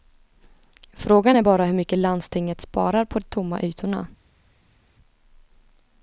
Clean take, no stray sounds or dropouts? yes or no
yes